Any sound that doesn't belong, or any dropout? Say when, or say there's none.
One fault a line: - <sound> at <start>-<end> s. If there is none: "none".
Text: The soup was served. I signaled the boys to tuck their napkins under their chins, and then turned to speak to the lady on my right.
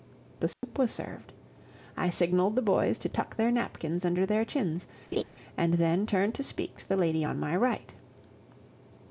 - dropout at 0.5-0.6 s
- laugh at 5.1-5.2 s